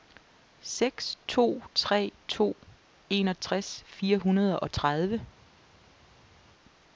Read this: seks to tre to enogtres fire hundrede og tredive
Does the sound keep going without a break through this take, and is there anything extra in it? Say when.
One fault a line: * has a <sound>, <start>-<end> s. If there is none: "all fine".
all fine